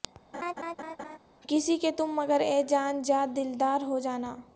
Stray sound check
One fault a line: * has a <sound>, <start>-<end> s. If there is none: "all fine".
* has a laugh, 0.3-1.2 s